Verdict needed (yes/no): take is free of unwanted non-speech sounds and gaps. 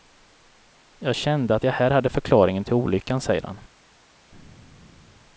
yes